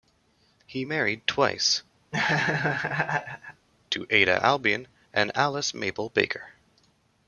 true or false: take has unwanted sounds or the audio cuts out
true